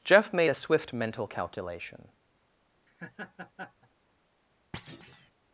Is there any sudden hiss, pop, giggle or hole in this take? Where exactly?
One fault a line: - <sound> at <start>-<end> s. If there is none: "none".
- laugh at 2.9-3.9 s
- thud at 4.7-5.3 s